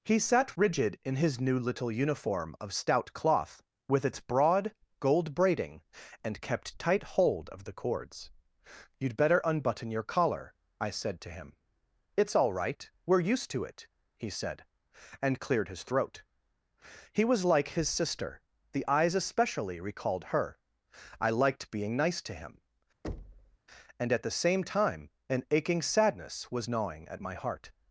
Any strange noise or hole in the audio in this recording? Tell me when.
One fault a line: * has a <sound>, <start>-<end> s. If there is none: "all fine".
* has a thud, 23.0-23.6 s